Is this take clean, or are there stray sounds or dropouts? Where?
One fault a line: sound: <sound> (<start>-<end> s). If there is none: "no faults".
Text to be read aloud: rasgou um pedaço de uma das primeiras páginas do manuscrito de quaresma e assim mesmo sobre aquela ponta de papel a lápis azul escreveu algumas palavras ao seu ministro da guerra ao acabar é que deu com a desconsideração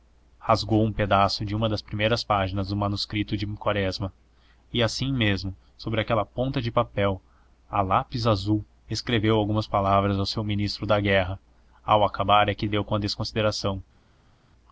no faults